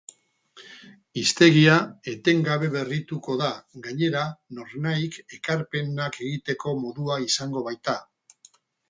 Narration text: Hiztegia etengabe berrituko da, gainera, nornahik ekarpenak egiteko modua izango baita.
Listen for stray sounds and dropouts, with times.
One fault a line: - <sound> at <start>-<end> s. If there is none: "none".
none